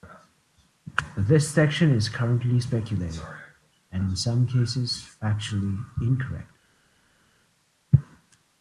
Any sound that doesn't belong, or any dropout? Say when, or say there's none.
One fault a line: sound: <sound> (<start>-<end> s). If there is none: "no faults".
no faults